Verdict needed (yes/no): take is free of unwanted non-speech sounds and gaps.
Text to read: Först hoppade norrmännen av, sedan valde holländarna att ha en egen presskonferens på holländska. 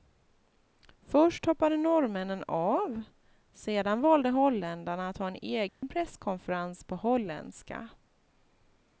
no